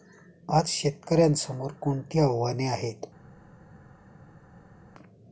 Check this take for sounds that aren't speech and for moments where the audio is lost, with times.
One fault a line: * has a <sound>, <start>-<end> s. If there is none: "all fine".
all fine